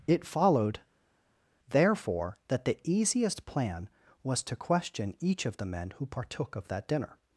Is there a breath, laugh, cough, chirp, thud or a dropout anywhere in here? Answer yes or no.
no